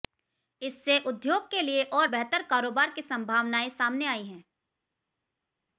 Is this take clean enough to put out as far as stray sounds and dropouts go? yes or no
yes